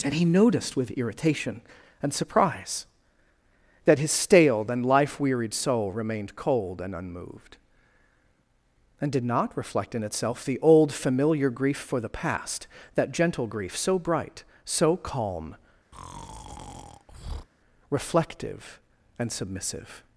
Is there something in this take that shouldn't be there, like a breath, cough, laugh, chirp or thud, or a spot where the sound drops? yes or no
yes